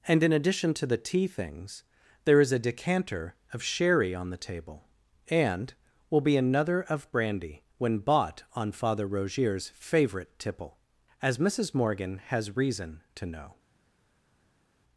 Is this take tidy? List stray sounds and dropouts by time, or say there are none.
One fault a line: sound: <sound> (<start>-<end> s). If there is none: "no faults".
no faults